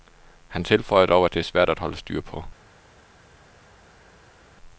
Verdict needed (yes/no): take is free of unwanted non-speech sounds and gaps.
yes